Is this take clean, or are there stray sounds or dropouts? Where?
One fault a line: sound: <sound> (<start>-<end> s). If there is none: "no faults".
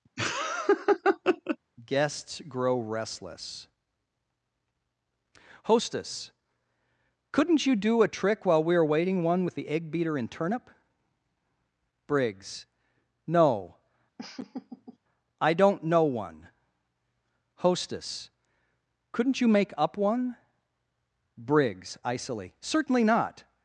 sound: laugh (0.2-1.6 s)
sound: laugh (14.2-15.0 s)